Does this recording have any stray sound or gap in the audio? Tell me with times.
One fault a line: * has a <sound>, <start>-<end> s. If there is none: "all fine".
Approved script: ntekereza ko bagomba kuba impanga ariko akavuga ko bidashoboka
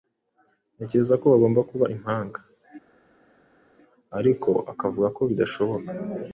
all fine